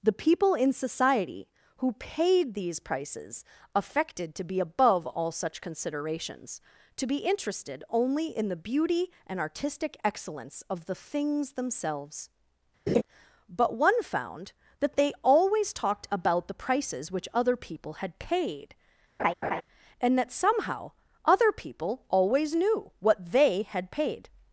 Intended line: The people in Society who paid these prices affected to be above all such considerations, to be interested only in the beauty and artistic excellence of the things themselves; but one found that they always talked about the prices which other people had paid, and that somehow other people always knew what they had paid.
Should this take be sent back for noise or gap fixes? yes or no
yes